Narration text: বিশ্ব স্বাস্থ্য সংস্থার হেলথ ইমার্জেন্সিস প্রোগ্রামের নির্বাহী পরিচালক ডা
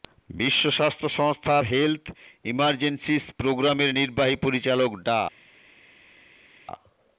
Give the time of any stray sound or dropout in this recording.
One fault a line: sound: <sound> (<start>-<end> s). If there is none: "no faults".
no faults